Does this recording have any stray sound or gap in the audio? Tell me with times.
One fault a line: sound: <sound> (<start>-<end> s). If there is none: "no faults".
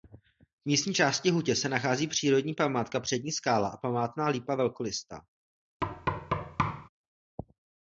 sound: thud (5.8-6.9 s)